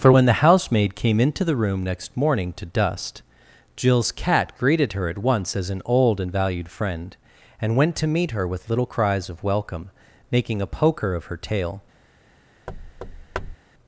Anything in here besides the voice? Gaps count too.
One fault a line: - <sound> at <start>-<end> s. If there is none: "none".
- thud at 12.7-13.6 s